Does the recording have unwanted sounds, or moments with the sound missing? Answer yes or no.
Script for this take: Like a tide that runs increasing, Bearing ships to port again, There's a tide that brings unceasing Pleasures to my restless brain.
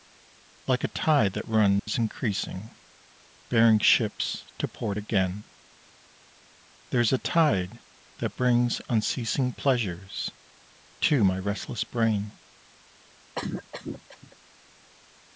yes